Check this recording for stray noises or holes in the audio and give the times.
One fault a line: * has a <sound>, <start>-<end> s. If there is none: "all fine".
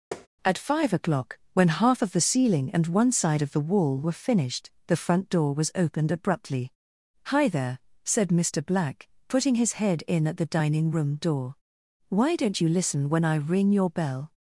* has a tap, 0.1-0.3 s